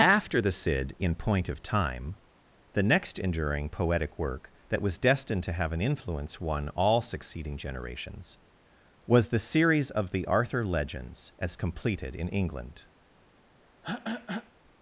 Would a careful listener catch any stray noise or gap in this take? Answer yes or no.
yes